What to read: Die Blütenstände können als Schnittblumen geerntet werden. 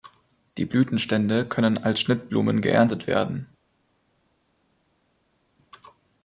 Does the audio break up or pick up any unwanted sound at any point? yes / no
no